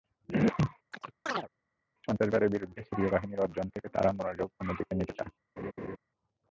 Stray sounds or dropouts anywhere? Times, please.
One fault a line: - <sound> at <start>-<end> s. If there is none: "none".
- chirp at 0.9-1.5 s
- laugh at 5.6-6.0 s